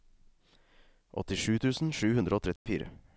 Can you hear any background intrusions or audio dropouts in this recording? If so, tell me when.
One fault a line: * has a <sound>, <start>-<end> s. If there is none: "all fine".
* has a dropout, 2.6-2.7 s